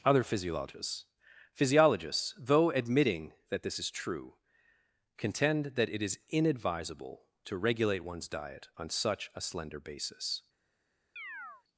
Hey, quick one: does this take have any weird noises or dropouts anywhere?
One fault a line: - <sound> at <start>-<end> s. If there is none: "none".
- chirp at 11.2-11.6 s